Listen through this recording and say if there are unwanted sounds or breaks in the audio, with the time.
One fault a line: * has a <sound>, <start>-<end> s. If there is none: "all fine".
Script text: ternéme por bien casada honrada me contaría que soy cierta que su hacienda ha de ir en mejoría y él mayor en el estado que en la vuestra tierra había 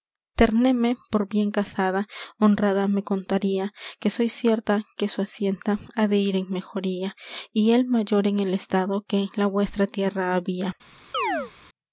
* has a chirp, 11.1-11.5 s